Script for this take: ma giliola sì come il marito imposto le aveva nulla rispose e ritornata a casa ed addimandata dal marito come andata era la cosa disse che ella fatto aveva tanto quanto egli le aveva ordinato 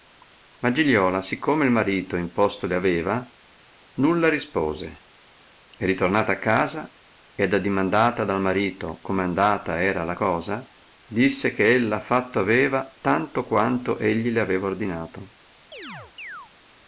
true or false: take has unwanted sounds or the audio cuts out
true